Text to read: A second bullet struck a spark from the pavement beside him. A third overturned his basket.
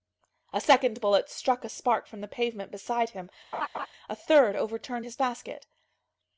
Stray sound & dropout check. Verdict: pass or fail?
fail